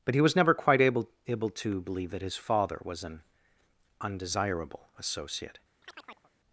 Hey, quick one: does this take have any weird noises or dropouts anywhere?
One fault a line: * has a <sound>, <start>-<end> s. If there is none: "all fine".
* has a chirp, 5.8-6.3 s